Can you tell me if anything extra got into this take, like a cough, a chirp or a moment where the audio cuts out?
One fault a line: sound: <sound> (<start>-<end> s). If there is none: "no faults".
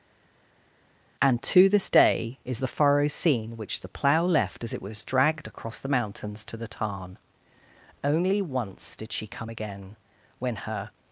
no faults